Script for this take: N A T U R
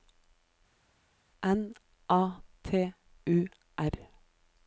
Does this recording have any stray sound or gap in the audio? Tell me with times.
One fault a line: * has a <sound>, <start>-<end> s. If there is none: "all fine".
all fine